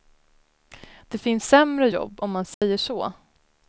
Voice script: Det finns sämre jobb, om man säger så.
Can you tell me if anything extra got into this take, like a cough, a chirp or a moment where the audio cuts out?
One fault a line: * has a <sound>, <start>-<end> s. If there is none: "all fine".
* has a dropout, 2.5-2.6 s